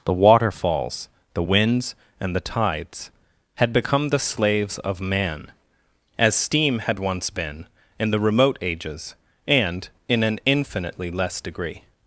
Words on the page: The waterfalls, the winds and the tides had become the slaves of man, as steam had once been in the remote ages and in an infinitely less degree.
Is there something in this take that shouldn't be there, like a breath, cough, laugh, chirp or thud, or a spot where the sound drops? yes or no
no